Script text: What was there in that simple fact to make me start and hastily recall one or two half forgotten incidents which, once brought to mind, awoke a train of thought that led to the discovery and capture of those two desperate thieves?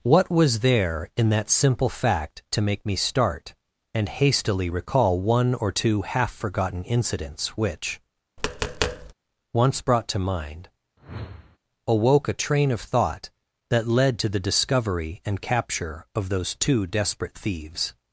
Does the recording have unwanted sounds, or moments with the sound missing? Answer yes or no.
yes